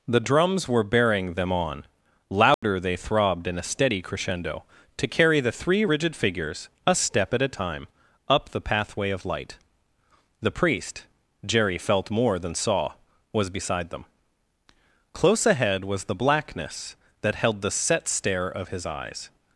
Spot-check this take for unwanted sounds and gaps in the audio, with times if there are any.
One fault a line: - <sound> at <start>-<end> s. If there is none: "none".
- dropout at 2.5-2.6 s